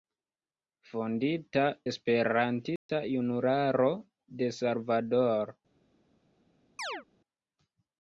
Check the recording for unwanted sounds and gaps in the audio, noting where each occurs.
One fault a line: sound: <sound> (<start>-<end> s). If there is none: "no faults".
sound: dropout (2.8-2.9 s)
sound: chirp (6.8-7.0 s)